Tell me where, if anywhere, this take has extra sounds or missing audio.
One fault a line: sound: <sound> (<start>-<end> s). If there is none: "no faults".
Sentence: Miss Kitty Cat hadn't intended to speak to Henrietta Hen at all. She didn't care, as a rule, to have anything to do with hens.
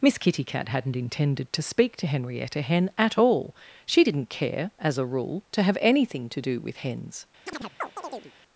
sound: chirp (7.5-8.3 s)